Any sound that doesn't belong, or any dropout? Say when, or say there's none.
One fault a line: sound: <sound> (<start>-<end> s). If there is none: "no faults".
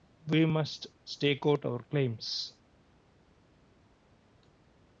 no faults